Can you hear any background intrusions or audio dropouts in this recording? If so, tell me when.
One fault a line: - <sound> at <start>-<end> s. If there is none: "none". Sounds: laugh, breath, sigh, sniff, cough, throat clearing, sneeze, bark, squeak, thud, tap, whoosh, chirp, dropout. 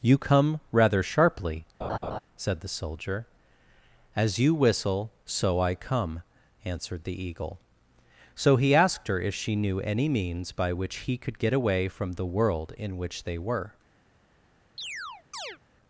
- laugh at 1.8-2.2 s
- chirp at 14.8-15.6 s